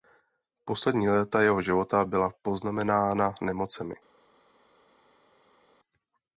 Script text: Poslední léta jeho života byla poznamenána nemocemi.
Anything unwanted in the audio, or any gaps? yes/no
no